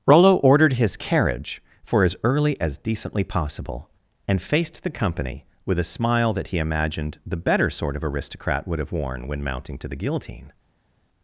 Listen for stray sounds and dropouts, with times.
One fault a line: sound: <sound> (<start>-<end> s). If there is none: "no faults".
no faults